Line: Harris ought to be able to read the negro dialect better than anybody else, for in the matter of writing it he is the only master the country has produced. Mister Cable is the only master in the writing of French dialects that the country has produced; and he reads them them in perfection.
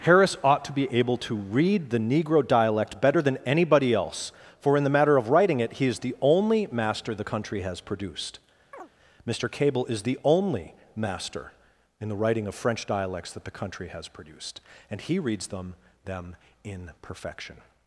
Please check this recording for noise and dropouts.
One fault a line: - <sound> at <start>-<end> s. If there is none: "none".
- chirp at 8.7-8.9 s